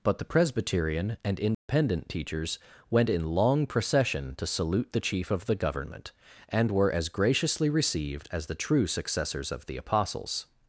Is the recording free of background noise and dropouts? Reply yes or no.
no